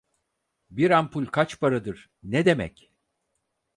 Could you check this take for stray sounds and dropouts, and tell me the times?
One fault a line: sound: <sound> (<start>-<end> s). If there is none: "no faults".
no faults